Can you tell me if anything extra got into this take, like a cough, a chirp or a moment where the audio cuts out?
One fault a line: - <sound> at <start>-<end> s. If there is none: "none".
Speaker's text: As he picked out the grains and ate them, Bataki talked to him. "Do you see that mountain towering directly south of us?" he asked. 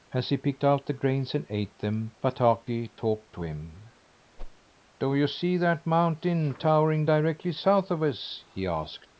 - whoosh at 4.4-4.6 s